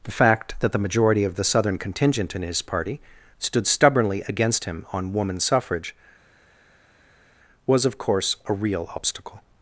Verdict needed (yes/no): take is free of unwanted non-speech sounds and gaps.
yes